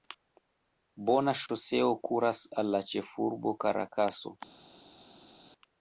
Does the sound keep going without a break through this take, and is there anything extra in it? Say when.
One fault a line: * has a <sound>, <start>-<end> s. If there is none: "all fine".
all fine